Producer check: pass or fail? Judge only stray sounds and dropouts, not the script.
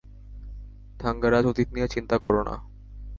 fail